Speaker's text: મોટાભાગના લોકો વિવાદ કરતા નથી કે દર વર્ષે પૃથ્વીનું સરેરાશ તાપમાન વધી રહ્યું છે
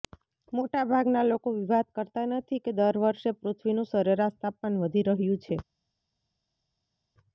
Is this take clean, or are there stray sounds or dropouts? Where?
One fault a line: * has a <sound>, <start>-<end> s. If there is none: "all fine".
all fine